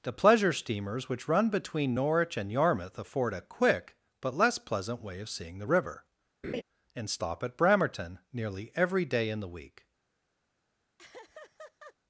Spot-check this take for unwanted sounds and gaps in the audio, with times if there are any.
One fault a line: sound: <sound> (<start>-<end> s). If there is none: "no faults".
sound: laugh (6.4-6.6 s)
sound: laugh (11.0-11.9 s)